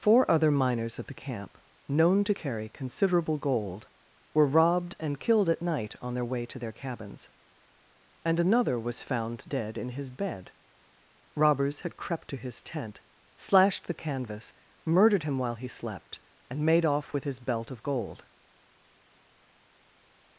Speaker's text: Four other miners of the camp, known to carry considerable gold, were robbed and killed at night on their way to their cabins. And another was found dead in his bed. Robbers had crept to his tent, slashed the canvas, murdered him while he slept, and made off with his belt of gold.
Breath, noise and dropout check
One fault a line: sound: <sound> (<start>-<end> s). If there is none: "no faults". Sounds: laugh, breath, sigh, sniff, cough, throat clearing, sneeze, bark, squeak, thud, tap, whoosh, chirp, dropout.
no faults